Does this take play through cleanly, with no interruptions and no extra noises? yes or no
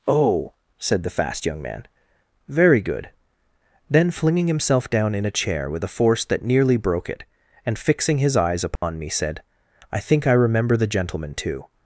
no